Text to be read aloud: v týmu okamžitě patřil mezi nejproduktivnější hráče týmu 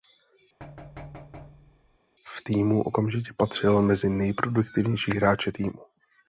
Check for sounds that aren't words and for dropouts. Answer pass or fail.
fail